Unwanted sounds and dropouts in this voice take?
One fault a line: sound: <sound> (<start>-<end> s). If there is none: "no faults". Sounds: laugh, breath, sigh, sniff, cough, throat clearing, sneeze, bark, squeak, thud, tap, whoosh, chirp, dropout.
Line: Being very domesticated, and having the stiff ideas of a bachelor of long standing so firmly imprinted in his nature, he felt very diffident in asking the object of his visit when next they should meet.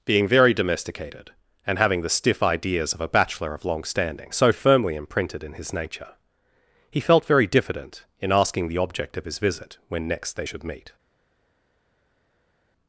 no faults